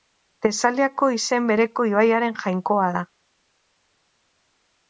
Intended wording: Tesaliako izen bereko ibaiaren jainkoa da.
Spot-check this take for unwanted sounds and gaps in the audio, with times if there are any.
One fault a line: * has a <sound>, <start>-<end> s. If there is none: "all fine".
all fine